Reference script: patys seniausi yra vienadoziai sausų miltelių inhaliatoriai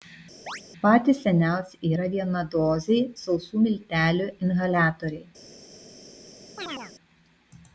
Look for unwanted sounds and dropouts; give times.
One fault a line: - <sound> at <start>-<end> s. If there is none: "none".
- chirp at 0.5-0.6 s
- chirp at 6.6-6.9 s